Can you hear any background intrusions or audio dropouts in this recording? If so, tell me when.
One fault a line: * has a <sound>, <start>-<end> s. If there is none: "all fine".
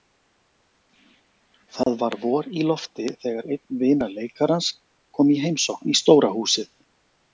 * has a dropout, 1.8-1.9 s